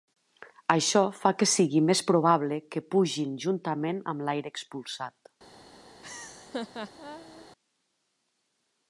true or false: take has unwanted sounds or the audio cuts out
true